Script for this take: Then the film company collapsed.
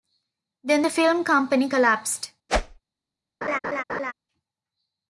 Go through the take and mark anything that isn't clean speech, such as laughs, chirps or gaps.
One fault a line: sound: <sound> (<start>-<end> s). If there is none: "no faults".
sound: whoosh (2.5-2.8 s)
sound: laugh (3.4-4.1 s)